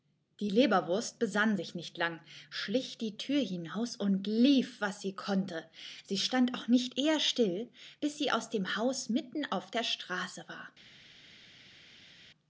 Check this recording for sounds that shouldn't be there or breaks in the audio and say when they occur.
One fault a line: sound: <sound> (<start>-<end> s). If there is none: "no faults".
no faults